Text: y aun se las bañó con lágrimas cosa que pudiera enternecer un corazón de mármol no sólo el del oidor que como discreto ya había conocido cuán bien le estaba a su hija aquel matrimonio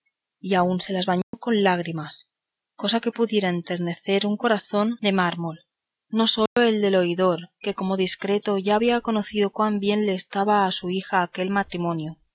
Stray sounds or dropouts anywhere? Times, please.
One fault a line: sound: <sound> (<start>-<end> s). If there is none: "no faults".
sound: dropout (1.2-1.3 s)
sound: dropout (6.5-6.6 s)